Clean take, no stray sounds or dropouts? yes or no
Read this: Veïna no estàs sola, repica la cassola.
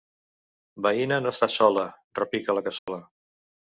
no